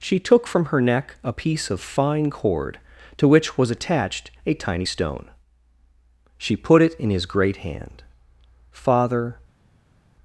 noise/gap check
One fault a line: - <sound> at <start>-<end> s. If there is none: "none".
none